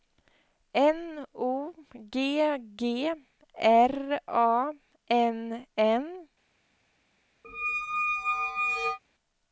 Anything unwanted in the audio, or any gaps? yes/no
yes